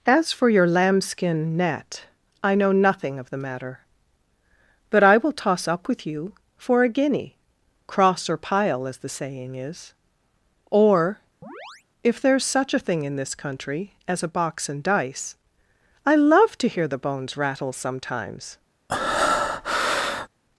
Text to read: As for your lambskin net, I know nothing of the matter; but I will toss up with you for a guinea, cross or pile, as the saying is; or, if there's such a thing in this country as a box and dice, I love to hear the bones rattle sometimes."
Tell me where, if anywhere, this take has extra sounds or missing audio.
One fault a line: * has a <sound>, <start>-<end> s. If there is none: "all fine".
* has a chirp, 11.4-11.8 s
* has a breath, 18.9-20.3 s